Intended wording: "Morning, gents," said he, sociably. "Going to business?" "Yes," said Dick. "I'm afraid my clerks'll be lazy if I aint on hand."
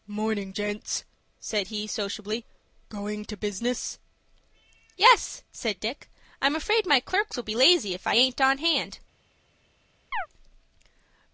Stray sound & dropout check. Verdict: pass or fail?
fail